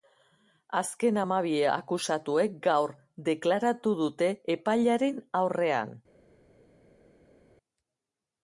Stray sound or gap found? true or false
false